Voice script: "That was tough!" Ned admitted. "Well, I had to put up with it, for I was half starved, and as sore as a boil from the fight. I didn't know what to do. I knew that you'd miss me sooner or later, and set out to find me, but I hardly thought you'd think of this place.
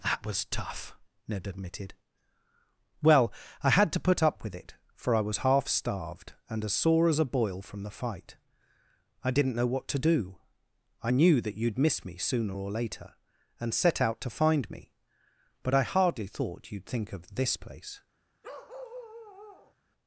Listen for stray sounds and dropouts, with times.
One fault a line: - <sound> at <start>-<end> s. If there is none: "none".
- bark at 18.4-19.7 s